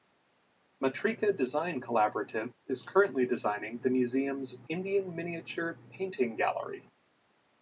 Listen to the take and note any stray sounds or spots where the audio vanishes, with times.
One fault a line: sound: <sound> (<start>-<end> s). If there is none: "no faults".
no faults